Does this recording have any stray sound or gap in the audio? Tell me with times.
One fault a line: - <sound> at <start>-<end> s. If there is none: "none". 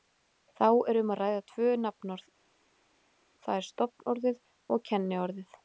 none